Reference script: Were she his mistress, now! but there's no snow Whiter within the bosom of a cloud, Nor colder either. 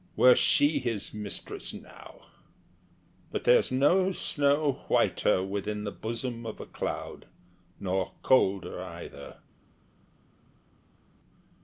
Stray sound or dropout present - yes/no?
no